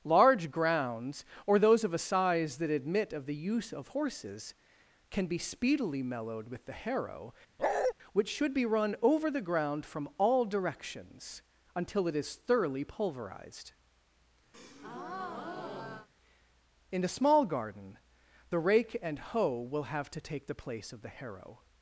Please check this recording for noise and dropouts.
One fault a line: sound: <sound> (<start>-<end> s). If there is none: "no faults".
sound: bark (7.6-7.9 s)
sound: breath (14.5-16.1 s)